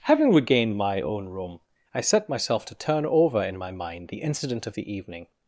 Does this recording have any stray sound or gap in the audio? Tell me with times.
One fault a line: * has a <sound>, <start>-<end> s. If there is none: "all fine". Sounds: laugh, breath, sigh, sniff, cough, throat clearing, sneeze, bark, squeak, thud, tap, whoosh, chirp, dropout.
all fine